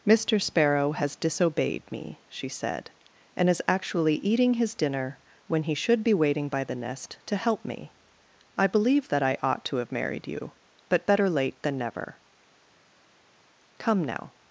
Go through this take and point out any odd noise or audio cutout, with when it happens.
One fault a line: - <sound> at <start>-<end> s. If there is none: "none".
none